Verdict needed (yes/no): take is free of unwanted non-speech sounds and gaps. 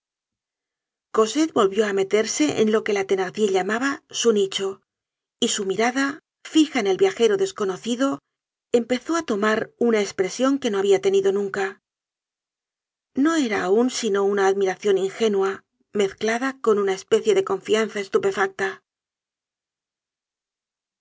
yes